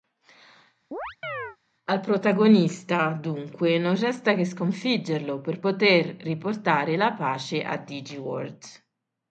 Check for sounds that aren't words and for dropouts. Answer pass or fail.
fail